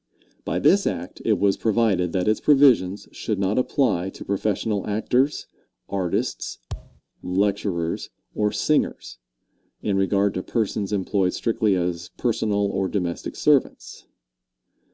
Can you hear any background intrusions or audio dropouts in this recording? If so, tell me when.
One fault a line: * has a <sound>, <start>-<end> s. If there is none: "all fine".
* has a thud, 6.7-7.0 s